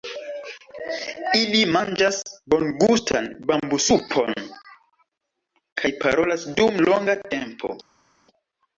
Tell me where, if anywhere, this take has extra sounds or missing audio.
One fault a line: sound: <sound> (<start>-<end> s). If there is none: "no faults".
no faults